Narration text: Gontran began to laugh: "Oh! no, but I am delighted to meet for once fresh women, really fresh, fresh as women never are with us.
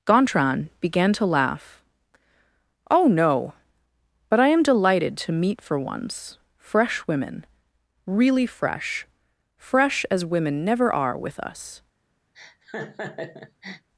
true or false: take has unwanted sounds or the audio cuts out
true